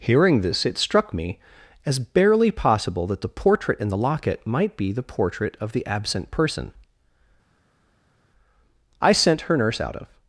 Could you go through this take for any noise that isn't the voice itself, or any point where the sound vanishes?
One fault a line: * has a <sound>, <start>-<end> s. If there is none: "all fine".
all fine